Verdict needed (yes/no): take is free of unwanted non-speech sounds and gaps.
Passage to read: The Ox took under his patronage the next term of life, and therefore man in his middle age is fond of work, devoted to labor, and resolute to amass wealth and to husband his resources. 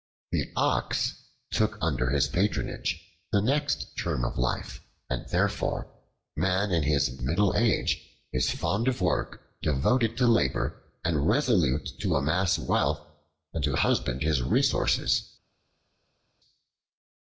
yes